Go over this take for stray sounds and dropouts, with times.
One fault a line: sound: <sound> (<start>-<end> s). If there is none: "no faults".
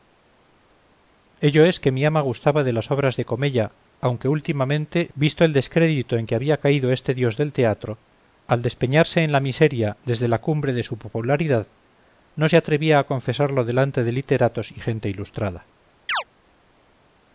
sound: chirp (16.1-16.2 s)